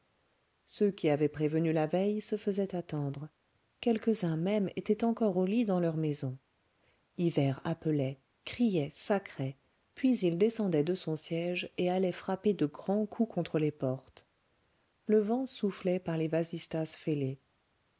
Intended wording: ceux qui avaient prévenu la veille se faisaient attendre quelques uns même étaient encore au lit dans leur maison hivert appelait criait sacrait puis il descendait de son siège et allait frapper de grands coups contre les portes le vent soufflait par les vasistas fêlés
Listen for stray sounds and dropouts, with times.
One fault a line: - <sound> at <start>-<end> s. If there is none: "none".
none